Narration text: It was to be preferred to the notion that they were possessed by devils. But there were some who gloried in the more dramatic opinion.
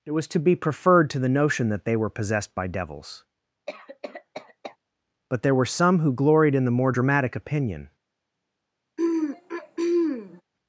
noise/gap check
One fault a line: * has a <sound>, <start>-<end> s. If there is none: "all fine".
* has a cough, 3.7-4.8 s
* has a throat clearing, 9.0-10.4 s